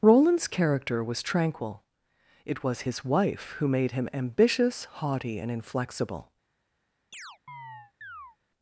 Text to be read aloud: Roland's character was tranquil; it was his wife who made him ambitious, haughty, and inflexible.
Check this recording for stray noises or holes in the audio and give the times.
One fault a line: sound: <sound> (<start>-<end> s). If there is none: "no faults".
sound: chirp (7.1-8.4 s)